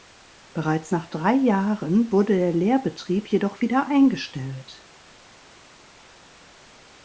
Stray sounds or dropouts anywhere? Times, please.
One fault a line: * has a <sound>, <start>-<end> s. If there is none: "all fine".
all fine